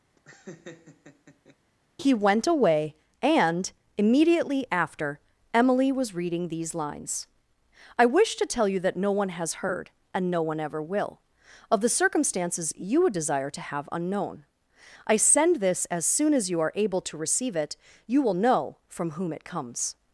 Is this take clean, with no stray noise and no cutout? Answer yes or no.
no